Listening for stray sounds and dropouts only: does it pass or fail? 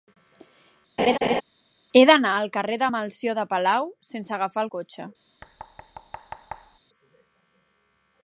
fail